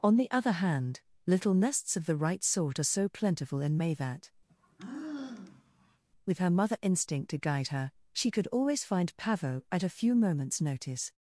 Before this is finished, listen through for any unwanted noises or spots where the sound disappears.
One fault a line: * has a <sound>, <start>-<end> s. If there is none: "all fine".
* has a sigh, 4.5-6.0 s